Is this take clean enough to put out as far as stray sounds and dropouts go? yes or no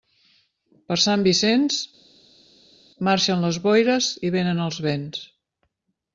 yes